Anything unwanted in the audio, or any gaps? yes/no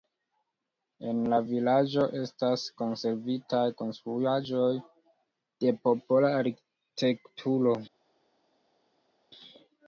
no